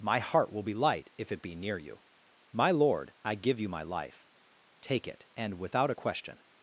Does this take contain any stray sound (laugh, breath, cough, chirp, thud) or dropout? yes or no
no